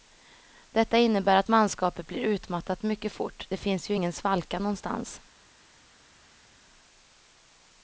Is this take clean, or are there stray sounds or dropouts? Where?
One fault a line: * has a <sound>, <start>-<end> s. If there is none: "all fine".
all fine